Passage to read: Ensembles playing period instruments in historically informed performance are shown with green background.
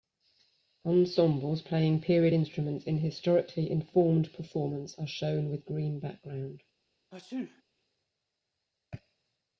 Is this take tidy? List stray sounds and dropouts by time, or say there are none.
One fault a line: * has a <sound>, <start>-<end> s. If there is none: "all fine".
* has a sneeze, 7.1-7.6 s